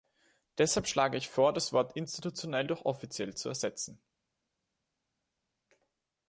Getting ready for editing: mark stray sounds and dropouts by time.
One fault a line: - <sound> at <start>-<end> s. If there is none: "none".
none